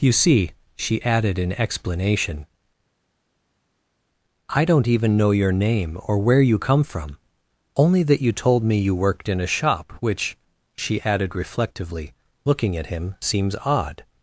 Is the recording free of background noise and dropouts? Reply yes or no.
yes